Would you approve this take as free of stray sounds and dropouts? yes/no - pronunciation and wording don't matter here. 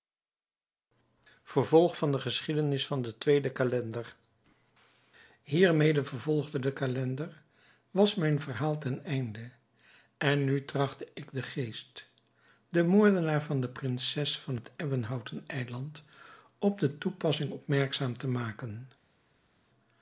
yes